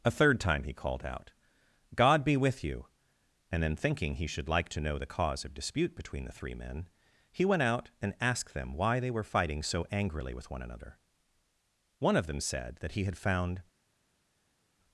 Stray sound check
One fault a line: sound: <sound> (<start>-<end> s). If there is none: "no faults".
no faults